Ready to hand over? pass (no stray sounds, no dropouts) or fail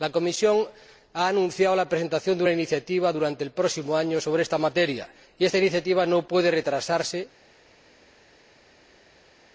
pass